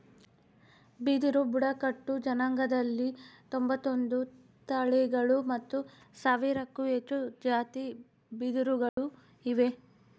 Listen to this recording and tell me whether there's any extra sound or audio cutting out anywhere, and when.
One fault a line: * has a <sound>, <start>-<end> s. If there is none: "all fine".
* has a dropout, 8.9-9.0 s